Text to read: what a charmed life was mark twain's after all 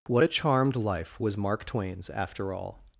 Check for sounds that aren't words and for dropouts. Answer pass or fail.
pass